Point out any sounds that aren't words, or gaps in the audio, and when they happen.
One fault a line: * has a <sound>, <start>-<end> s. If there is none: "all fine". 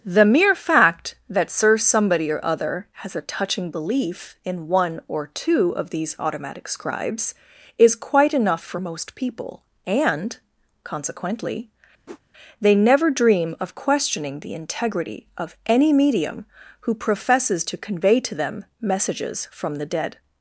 * has a whoosh, 12.1-12.2 s